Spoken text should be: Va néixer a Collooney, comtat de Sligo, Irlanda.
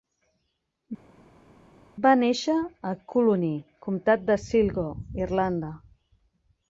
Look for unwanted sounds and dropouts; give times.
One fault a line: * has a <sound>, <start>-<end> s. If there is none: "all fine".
all fine